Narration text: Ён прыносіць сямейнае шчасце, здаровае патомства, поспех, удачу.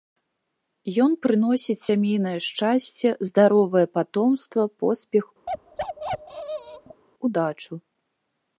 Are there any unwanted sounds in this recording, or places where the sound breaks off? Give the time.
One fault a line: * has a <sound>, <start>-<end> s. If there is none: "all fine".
* has a bark, 5.5-7.0 s